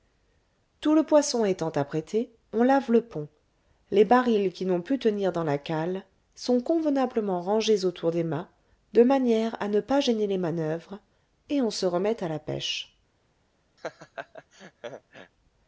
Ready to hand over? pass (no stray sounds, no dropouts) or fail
fail